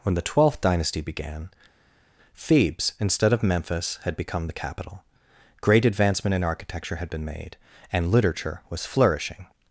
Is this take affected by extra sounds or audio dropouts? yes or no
no